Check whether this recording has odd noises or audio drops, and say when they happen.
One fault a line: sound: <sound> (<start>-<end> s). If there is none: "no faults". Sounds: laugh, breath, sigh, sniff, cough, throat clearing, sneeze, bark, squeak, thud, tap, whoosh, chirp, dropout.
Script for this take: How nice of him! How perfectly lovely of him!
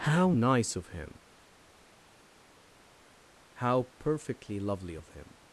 no faults